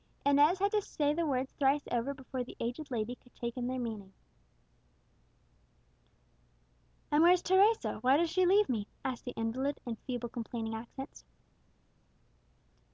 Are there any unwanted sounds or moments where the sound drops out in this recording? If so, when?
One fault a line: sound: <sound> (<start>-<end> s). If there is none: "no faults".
no faults